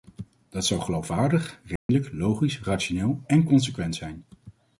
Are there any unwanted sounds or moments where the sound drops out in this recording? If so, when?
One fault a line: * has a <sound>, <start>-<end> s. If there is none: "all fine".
* has a dropout, 1.8-1.9 s